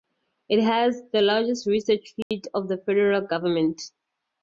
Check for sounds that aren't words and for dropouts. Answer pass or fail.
fail